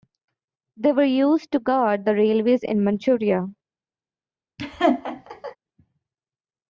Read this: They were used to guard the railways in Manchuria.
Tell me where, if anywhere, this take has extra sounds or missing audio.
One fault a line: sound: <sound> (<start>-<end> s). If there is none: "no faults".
sound: laugh (4.6-5.6 s)